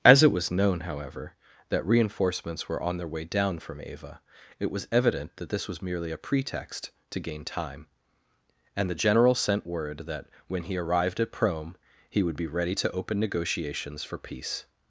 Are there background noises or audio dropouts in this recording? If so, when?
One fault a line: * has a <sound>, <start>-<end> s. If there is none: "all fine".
all fine